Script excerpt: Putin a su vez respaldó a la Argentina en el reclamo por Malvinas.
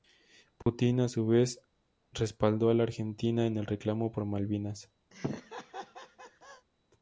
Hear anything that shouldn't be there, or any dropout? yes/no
yes